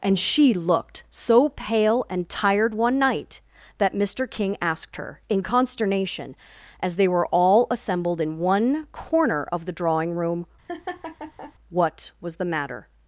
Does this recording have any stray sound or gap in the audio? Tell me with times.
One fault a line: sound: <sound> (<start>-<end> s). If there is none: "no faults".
sound: laugh (10.7-11.5 s)